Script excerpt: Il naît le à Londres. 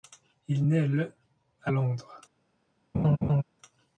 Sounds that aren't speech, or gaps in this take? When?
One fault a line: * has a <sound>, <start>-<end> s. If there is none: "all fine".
* has a laugh, 2.9-3.4 s